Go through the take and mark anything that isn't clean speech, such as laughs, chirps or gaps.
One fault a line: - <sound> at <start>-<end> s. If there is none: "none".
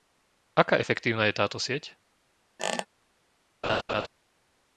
- squeak at 2.6-2.9 s
- laugh at 3.6-4.1 s